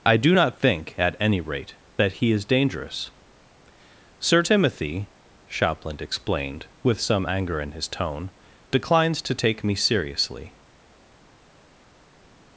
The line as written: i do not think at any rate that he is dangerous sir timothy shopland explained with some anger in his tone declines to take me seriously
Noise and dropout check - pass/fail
pass